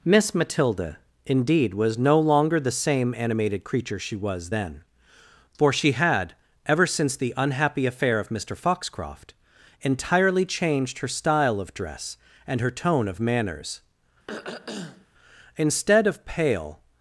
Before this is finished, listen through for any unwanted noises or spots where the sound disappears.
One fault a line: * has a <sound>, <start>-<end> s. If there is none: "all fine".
* has a throat clearing, 14.3-15.1 s